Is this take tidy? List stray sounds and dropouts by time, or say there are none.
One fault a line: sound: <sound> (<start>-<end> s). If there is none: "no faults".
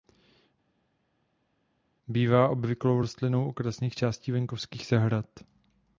no faults